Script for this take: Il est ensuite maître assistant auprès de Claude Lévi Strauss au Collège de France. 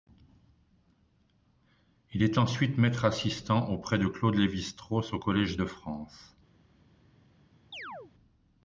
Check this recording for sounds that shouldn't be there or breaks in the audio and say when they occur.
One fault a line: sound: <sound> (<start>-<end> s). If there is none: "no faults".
sound: chirp (7.7-8.1 s)